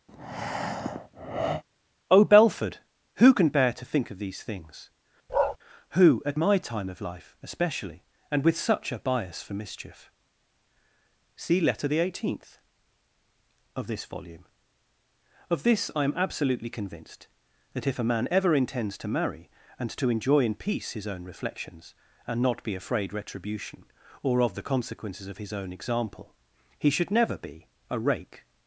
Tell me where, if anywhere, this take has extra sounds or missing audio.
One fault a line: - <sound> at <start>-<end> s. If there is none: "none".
- breath at 0.1-1.6 s
- bark at 5.3-5.6 s